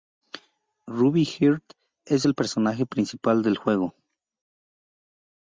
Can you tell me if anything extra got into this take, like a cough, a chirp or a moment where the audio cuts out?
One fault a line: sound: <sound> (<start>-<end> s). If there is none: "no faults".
no faults